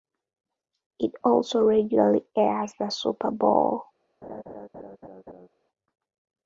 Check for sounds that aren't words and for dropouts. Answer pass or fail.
fail